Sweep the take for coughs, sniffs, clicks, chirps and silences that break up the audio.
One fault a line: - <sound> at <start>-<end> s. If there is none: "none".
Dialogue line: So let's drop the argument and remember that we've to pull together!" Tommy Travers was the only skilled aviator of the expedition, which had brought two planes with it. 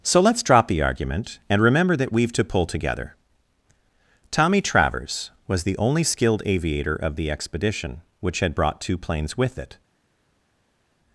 none